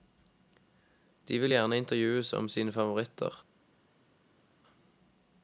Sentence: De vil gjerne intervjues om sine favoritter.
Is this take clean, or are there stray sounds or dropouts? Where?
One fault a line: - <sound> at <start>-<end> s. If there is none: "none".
none